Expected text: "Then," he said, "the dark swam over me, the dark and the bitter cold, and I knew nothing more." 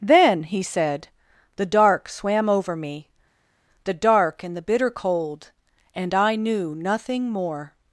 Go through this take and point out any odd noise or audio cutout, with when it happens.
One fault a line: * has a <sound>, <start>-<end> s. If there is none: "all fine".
all fine